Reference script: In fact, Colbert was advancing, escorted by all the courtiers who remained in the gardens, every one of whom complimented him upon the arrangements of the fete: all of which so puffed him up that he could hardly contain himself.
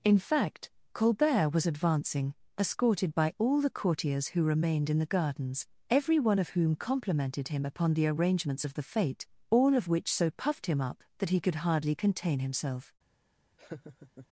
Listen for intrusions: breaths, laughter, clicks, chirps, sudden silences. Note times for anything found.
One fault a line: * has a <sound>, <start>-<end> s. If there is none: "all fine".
* has a laugh, 13.6-14.3 s